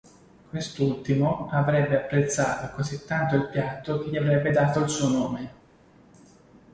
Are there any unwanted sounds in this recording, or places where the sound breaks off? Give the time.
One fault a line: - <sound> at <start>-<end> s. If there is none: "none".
none